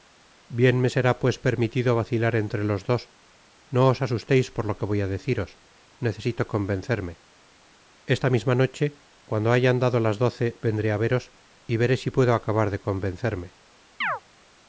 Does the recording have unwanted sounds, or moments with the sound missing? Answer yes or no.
yes